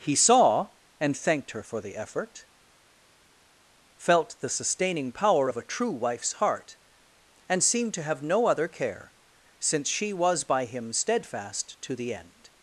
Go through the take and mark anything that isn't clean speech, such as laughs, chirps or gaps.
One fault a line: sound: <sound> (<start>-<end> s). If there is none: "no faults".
no faults